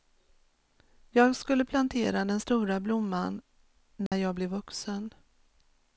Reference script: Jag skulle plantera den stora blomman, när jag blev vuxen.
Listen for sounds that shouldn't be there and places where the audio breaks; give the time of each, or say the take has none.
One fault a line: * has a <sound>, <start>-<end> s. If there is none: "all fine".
* has a dropout, 4.1-4.1 s